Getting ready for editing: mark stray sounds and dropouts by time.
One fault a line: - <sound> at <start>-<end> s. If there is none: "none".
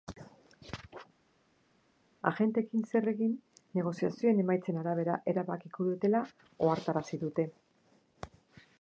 none